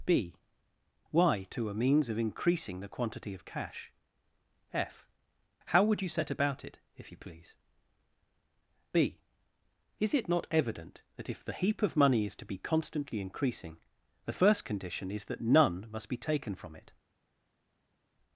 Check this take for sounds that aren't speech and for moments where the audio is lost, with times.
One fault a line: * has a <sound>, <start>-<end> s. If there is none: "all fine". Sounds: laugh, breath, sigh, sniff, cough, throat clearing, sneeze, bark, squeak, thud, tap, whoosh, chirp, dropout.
all fine